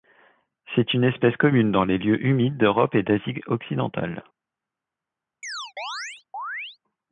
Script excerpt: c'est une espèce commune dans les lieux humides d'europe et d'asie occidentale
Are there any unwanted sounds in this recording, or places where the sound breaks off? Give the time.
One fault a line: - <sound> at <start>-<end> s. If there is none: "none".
- chirp at 5.4-6.8 s